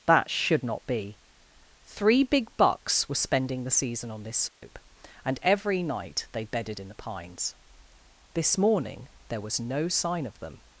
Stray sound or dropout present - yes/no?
yes